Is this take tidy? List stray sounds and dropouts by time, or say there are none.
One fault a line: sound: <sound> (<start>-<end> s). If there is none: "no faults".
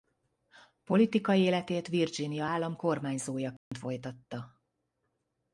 sound: dropout (3.6-3.7 s)